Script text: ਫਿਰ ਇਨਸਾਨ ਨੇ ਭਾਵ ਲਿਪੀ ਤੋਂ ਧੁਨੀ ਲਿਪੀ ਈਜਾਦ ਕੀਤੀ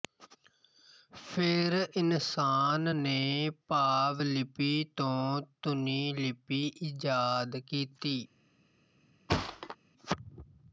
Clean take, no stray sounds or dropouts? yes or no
no